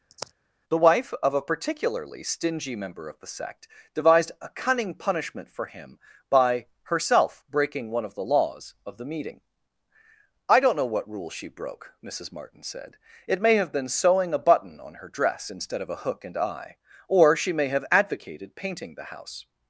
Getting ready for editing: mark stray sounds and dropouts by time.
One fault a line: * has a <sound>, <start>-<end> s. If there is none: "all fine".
* has a sigh, 0.1-0.3 s